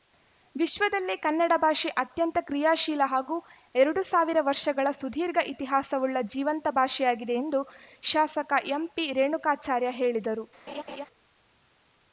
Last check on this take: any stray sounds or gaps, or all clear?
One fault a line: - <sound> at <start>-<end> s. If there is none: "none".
- laugh at 10.7-11.1 s